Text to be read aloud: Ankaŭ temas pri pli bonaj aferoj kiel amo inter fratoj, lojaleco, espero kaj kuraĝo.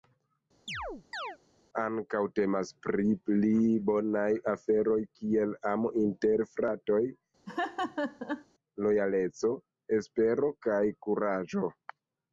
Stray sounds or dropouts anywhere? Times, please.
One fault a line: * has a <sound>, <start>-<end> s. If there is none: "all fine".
* has a chirp, 0.7-1.4 s
* has a laugh, 7.5-8.5 s